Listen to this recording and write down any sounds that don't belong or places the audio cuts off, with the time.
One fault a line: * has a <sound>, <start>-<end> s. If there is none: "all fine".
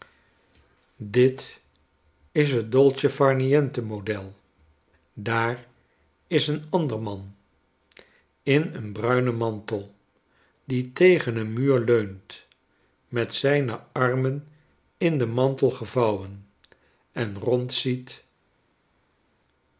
all fine